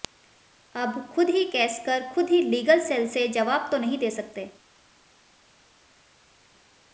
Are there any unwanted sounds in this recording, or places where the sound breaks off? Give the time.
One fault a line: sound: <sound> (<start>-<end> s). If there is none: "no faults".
no faults